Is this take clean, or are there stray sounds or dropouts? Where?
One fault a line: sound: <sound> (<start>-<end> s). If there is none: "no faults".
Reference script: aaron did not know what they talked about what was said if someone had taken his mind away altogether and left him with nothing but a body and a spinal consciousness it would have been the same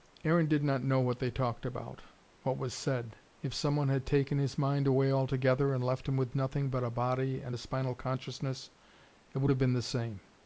no faults